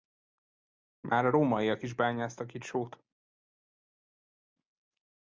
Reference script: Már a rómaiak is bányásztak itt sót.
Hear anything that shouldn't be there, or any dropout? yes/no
no